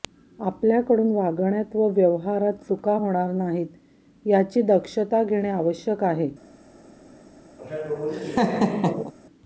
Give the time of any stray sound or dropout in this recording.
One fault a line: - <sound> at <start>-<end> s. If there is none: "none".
- laugh at 7.6-9.1 s